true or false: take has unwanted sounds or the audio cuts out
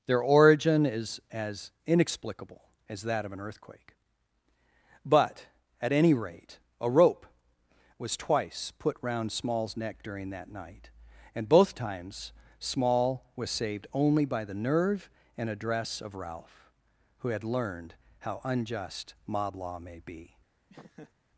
true